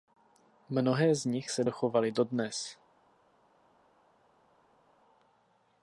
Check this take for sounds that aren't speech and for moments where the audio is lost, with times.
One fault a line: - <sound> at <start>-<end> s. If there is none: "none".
none